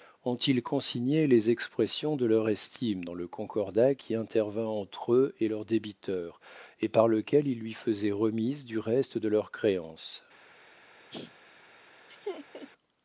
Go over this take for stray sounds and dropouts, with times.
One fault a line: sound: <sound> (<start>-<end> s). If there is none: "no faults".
sound: sneeze (11.1-11.4 s)
sound: laugh (12.1-12.7 s)